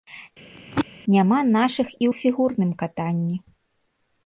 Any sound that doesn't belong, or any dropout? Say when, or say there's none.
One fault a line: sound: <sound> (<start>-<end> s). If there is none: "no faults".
sound: throat clearing (0.5-0.9 s)